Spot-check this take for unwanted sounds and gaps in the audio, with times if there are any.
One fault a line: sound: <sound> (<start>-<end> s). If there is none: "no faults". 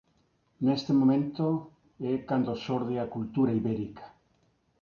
no faults